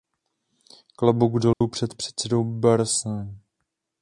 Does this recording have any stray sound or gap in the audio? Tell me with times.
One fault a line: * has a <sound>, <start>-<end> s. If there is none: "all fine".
* has a dropout, 1.5-1.6 s